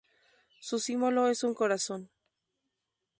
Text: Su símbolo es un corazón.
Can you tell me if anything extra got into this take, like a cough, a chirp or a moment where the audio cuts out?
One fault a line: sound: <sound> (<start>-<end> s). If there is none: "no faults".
no faults